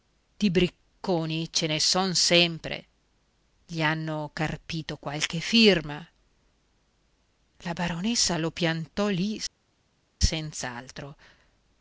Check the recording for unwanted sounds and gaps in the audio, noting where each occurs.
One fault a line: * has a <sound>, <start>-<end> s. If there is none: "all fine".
all fine